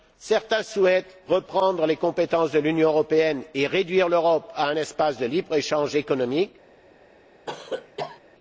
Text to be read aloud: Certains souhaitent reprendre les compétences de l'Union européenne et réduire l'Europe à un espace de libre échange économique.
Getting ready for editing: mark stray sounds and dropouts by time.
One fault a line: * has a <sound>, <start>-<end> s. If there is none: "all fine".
* has a cough, 7.5-8.2 s